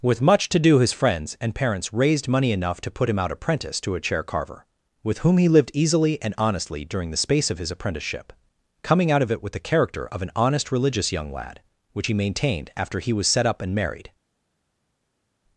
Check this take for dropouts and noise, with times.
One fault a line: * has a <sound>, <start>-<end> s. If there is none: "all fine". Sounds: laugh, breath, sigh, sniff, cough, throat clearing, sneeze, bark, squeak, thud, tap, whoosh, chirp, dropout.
all fine